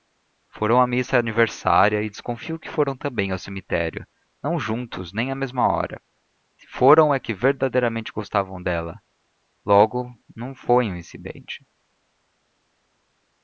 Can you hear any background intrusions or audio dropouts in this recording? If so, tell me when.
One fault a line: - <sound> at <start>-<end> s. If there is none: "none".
none